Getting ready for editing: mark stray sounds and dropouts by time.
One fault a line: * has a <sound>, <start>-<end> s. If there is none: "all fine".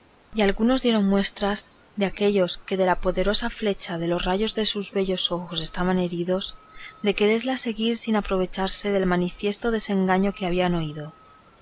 all fine